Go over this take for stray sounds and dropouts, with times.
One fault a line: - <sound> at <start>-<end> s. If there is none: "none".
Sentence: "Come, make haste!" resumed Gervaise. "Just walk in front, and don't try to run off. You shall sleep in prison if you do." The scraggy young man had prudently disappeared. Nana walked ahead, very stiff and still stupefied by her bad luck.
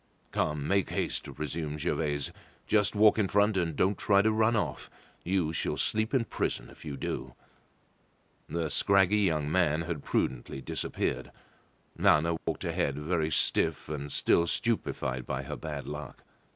- dropout at 12.4-12.5 s